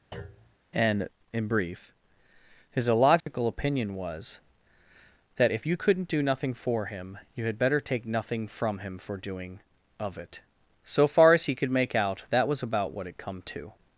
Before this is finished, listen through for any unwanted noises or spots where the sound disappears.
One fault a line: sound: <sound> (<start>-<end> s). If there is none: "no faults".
sound: thud (0.1-0.6 s)
sound: dropout (3.2-3.3 s)